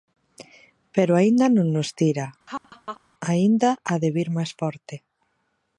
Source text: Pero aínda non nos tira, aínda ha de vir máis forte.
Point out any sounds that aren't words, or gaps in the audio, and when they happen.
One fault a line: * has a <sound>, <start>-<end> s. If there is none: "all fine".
* has a laugh, 2.5-3.0 s